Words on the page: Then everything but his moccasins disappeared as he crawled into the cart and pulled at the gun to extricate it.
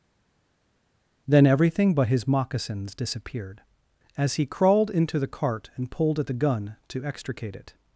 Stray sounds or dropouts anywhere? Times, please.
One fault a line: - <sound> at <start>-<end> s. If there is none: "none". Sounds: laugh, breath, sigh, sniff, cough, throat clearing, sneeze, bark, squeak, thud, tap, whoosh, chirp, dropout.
none